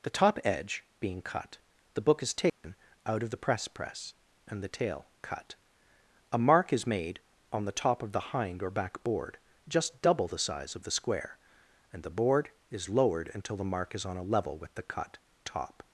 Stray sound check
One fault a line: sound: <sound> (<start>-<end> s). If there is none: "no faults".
sound: dropout (2.5-2.6 s)